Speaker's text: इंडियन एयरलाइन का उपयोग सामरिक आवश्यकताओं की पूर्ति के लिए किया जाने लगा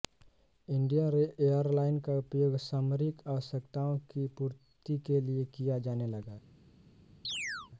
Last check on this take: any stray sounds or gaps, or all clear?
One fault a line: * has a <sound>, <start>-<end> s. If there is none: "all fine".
* has a chirp, 7.2-7.7 s